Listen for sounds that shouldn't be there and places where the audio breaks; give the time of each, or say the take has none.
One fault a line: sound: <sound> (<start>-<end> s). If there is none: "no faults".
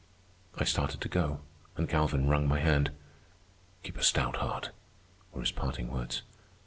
no faults